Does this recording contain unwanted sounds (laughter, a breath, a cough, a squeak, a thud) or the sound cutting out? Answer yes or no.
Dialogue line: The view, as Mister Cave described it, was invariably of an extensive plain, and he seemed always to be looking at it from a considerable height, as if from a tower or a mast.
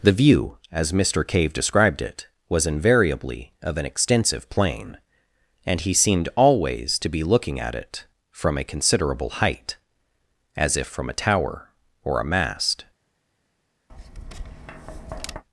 yes